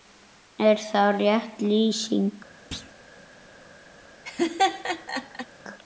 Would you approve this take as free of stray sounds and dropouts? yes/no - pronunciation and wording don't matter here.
no